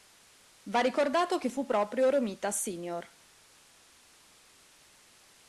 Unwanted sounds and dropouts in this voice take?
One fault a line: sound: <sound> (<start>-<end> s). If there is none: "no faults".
no faults